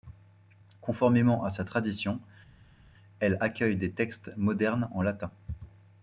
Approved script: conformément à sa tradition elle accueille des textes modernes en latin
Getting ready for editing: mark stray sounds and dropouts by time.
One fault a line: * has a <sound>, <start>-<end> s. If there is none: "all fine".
all fine